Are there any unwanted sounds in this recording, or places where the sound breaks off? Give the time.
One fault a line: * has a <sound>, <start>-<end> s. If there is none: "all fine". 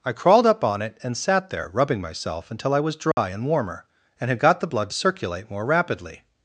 * has a dropout, 3.1-3.2 s